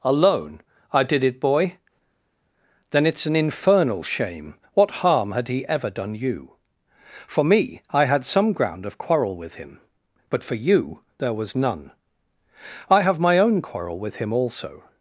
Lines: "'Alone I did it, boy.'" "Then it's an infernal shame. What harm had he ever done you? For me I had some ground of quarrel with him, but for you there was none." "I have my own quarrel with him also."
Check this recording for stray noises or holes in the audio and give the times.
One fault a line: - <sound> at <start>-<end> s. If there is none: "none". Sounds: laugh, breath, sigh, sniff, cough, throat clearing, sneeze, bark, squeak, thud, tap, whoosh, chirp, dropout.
none